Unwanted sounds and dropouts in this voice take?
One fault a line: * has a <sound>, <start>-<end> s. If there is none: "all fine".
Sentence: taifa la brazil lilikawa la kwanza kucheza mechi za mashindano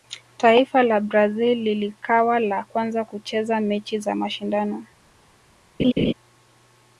* has a laugh, 5.8-6.1 s